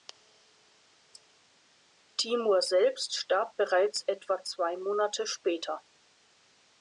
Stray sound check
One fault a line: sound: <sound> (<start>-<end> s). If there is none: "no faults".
no faults